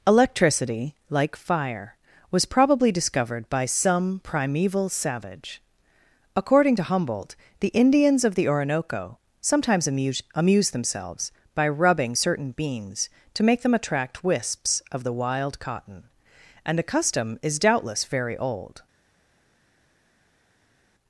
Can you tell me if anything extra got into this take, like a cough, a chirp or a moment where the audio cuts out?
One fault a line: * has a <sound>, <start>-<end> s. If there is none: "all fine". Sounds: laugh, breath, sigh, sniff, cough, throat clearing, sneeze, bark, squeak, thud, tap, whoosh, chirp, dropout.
all fine